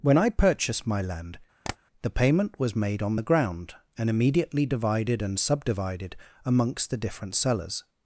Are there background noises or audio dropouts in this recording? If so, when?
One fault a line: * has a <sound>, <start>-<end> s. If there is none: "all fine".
* has a tap, 1.6-1.8 s